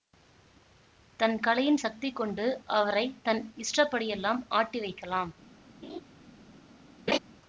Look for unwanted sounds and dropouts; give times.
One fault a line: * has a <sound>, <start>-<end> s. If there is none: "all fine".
* has a laugh, 5.8-6.0 s
* has a laugh, 7.1-7.2 s